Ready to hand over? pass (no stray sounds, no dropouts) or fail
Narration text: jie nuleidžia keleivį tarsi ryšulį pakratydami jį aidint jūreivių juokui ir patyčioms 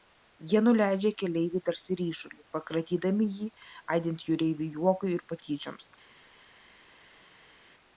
pass